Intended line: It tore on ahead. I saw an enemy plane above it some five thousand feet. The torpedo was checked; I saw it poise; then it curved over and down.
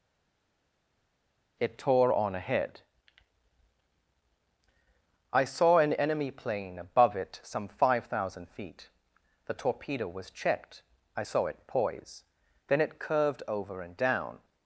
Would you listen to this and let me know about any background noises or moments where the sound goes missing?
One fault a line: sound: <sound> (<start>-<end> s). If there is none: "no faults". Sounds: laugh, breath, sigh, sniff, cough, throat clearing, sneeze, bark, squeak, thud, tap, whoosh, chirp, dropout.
no faults